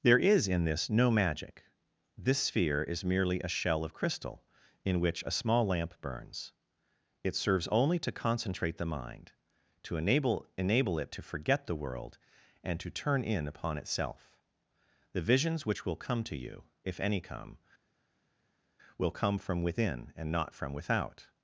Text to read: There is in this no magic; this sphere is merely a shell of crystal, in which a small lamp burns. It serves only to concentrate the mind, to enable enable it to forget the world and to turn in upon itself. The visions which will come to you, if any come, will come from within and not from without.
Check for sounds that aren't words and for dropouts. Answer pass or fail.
pass